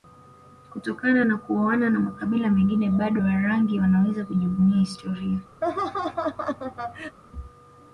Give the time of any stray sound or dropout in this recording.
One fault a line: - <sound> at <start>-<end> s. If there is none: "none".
- laugh at 5.6-7.2 s